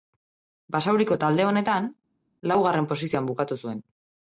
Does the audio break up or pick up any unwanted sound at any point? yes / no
no